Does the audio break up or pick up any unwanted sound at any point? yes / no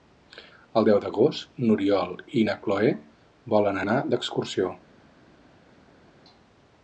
no